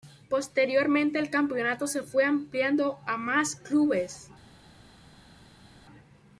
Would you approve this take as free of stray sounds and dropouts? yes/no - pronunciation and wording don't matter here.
yes